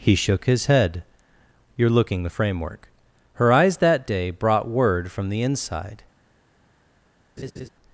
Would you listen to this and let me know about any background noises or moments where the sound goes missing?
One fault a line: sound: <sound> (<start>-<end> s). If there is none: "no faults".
sound: laugh (7.4-7.7 s)